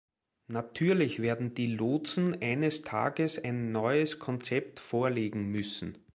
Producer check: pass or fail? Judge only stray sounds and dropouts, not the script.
pass